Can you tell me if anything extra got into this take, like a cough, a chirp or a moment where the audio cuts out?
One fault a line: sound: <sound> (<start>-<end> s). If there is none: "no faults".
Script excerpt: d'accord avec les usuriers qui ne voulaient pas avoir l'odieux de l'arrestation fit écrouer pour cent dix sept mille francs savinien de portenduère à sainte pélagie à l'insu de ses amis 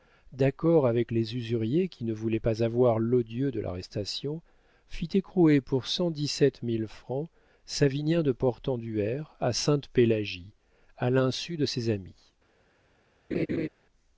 sound: laugh (13.3-13.7 s)